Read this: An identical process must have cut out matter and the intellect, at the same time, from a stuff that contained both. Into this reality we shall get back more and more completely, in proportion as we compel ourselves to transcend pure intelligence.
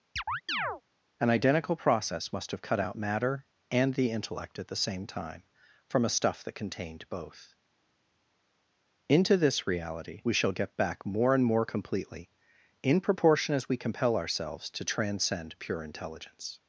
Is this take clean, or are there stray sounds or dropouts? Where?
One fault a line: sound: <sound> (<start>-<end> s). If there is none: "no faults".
sound: chirp (0.2-0.8 s)